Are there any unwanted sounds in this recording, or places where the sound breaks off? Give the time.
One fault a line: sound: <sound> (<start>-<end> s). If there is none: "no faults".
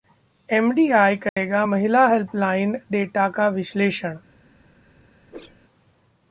sound: dropout (1.3-1.4 s)
sound: whoosh (5.3-5.6 s)